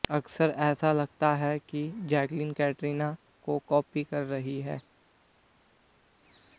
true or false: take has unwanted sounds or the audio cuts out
false